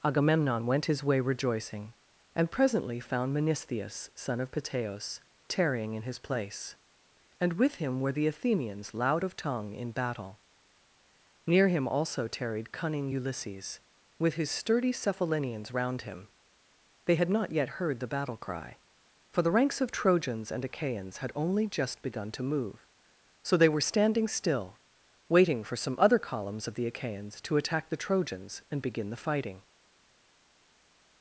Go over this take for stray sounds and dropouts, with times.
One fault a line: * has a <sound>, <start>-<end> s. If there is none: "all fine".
all fine